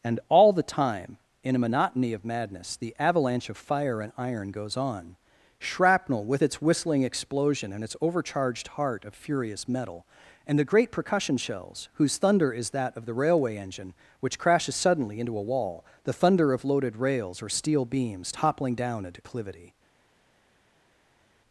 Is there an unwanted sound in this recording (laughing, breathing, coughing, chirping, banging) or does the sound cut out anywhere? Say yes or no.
no